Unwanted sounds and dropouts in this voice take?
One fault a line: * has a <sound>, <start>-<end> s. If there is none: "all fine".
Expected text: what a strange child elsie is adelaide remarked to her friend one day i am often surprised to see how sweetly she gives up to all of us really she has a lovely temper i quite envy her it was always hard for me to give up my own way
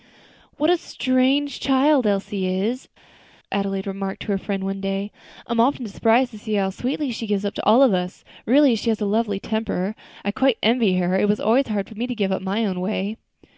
all fine